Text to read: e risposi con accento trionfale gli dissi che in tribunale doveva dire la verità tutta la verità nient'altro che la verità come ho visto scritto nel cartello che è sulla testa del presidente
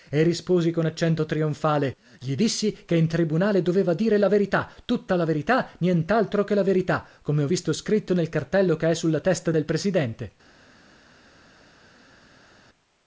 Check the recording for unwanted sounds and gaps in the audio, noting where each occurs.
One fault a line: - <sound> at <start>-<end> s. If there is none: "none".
none